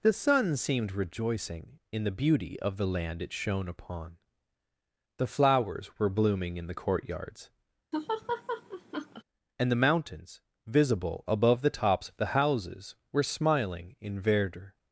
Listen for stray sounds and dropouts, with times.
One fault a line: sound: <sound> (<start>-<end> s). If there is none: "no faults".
sound: laugh (7.9-9.2 s)